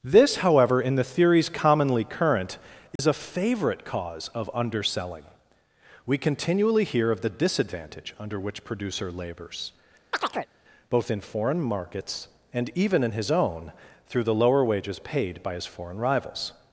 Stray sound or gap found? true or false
true